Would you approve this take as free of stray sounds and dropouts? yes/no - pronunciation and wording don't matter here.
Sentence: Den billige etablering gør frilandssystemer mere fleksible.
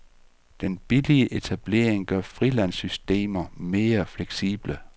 yes